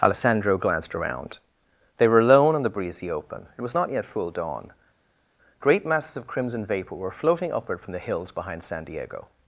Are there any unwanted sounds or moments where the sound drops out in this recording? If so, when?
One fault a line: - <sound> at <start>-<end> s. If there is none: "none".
none